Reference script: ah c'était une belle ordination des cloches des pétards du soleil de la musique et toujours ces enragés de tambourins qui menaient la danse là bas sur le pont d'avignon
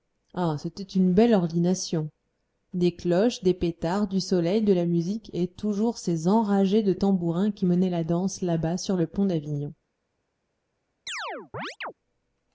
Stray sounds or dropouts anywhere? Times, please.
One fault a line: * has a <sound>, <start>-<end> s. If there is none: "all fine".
* has a chirp, 11.1-11.9 s